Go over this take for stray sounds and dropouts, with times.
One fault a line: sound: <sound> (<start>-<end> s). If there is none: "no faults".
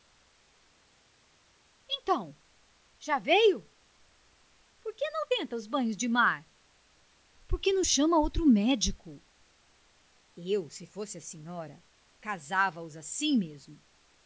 no faults